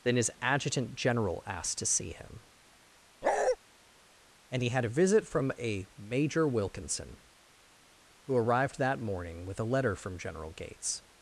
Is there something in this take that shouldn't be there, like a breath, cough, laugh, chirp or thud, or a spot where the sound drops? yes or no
yes